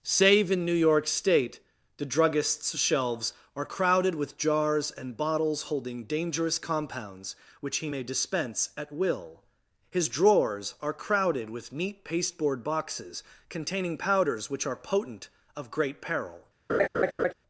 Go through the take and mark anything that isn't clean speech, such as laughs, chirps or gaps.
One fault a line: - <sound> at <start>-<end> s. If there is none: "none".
- laugh at 16.7-17.3 s